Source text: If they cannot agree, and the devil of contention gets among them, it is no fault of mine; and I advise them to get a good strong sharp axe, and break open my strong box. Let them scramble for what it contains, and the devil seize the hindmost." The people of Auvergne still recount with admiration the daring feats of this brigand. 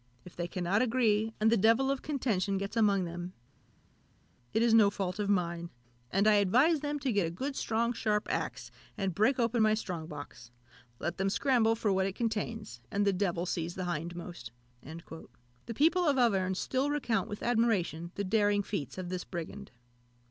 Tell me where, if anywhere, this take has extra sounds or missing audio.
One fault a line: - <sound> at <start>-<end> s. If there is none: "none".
none